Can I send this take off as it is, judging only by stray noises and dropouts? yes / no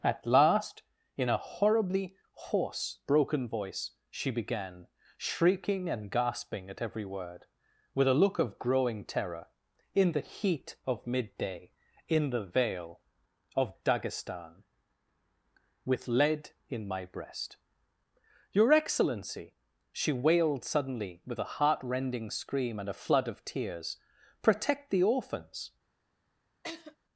no